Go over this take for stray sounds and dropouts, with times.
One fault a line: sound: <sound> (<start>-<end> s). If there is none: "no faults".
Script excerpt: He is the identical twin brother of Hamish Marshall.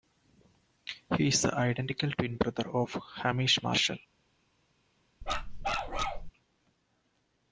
sound: bark (5.2-6.3 s)